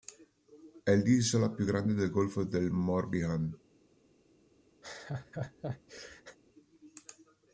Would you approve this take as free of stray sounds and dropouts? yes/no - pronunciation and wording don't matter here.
no